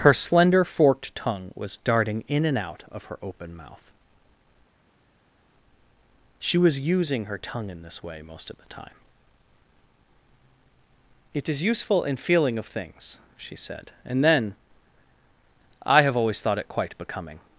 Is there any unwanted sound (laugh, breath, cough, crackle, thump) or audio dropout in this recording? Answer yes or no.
no